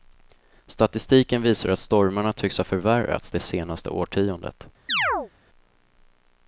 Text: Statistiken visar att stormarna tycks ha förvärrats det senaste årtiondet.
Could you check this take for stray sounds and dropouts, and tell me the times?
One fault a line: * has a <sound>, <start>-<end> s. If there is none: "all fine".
* has a chirp, 4.9-5.3 s